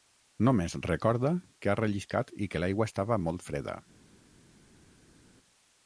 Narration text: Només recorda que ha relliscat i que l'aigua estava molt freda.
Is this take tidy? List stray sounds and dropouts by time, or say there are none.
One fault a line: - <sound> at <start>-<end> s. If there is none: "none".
none